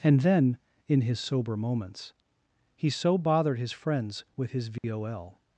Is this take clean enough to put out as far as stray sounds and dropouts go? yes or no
no